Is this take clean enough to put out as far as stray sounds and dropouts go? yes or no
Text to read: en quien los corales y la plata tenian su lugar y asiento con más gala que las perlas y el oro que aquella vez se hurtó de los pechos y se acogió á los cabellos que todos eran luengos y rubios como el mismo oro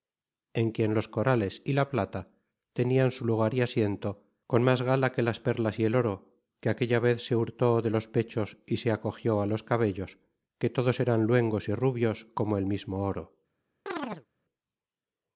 no